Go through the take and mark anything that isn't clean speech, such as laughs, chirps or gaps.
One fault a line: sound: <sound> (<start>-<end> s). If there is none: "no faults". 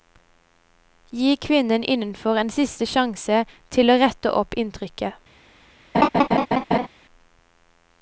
sound: laugh (5.9-6.9 s)